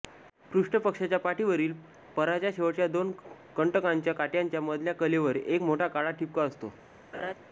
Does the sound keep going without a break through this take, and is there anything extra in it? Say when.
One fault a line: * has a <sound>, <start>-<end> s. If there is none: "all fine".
* has a laugh, 7.1-7.3 s